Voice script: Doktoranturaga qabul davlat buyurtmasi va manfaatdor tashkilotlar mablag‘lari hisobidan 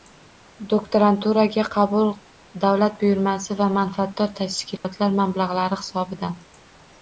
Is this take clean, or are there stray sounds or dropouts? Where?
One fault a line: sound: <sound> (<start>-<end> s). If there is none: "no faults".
sound: dropout (4.8-4.8 s)